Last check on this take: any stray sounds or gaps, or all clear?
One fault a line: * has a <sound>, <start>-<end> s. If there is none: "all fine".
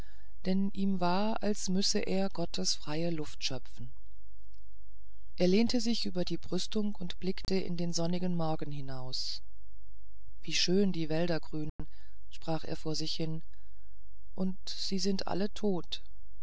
* has a dropout, 7.4-7.5 s
* has a dropout, 11.7-11.8 s